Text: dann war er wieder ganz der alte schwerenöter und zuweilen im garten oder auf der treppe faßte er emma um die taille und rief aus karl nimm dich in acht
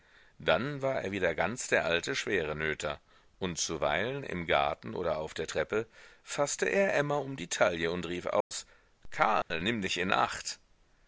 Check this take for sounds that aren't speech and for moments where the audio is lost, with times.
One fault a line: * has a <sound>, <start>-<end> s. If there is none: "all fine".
* has a dropout, 8.4-8.5 s
* has a dropout, 9.4-9.5 s